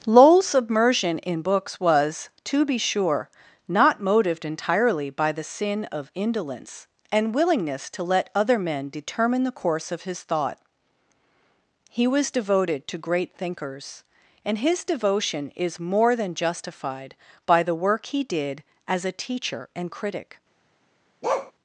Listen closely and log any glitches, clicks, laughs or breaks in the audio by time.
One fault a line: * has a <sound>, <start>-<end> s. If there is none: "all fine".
* has a bark, 21.2-21.5 s